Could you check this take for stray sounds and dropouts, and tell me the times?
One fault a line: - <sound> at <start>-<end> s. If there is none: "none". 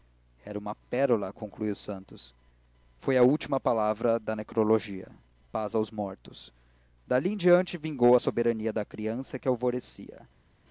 none